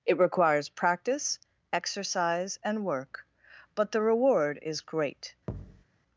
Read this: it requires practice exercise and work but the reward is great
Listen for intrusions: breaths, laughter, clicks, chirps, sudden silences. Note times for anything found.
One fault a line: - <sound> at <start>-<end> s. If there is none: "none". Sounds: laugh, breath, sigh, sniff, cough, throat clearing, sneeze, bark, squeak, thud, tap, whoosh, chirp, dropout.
- thud at 5.5-5.8 s